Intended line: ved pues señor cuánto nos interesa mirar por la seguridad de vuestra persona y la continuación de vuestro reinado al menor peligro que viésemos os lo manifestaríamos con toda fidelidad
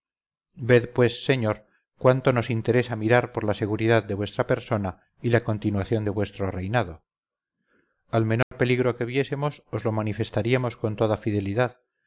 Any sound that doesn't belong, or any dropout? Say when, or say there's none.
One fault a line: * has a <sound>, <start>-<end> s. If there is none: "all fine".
* has a dropout, 8.4-8.5 s